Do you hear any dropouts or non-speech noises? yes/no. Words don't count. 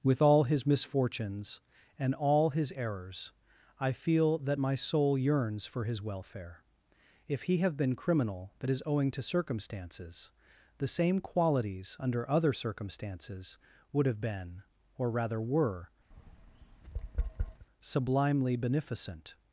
yes